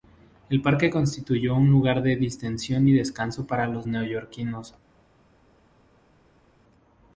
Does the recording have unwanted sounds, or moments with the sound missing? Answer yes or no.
no